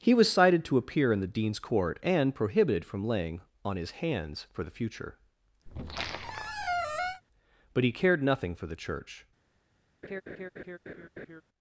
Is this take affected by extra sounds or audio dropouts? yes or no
yes